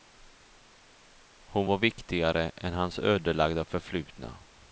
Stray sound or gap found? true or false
false